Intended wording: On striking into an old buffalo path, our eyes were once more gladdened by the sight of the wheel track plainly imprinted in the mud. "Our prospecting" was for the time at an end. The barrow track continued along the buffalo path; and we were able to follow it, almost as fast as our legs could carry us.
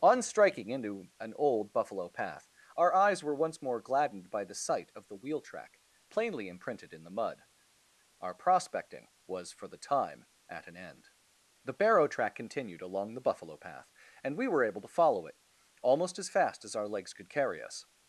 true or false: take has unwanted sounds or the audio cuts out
false